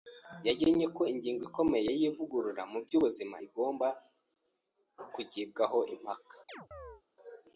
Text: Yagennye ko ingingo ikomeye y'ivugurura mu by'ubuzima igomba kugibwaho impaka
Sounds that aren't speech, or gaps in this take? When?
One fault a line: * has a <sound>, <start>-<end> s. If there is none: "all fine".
* has a chirp, 6.5-7.0 s